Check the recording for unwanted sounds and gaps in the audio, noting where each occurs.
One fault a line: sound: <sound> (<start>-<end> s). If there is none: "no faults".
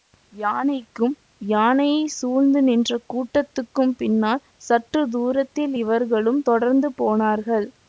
no faults